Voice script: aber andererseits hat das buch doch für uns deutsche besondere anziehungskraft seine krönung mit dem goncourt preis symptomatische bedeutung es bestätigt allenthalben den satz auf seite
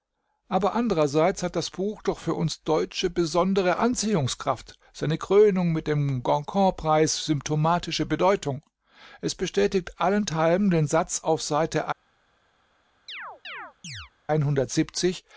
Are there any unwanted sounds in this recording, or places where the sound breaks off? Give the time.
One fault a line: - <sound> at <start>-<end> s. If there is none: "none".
- chirp at 13.1-14.1 s